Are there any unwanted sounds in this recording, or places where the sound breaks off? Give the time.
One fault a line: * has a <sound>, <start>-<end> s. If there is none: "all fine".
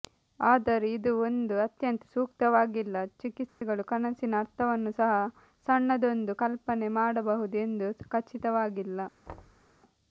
* has a dropout, 3.5-3.6 s
* has a thud, 9.3-9.6 s